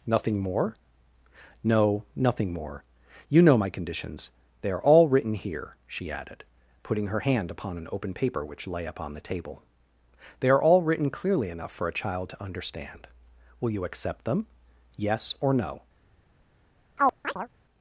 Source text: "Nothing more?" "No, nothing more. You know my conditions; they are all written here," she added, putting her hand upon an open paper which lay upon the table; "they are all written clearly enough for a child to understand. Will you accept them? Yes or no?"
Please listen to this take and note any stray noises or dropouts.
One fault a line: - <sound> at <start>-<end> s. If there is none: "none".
- chirp at 17.0-17.5 s